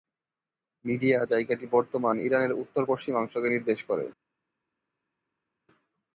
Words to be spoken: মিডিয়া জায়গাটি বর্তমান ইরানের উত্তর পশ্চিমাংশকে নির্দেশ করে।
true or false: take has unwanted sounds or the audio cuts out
false